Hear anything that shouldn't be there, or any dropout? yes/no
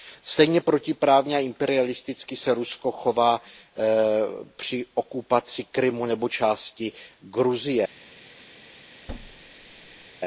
yes